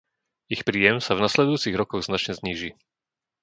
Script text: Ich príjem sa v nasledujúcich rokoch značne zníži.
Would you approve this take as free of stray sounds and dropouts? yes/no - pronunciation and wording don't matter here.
yes